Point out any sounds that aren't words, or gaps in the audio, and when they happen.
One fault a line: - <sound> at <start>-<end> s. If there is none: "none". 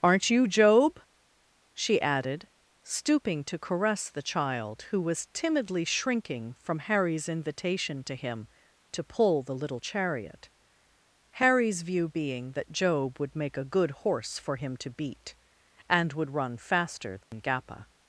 - dropout at 17.2-17.3 s